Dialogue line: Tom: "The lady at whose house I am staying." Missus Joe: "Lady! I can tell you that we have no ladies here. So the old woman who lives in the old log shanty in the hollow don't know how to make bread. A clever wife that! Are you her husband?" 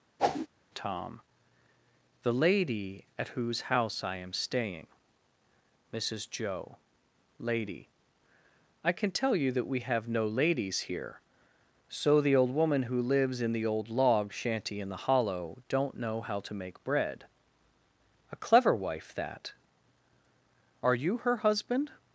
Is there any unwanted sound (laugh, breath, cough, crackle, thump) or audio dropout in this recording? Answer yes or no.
yes